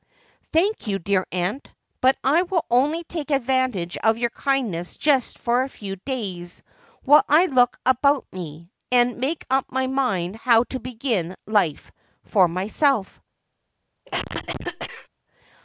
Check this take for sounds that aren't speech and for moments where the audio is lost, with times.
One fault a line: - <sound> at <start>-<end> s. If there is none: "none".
- cough at 14.1-15.1 s